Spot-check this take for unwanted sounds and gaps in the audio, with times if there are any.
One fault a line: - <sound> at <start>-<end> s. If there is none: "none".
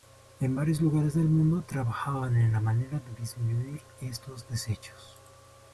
none